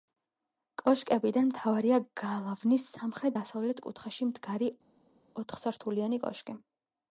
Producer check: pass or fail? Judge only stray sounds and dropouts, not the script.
pass